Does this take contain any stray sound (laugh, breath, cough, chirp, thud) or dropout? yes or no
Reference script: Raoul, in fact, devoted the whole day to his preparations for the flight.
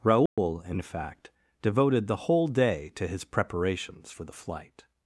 yes